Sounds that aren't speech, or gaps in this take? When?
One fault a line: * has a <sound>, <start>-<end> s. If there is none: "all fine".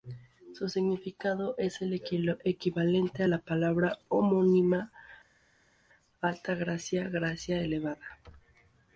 all fine